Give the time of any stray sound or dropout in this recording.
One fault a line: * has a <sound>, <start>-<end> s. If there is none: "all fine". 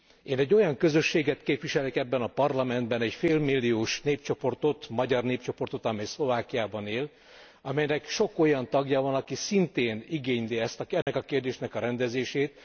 * has a dropout, 11.0-11.1 s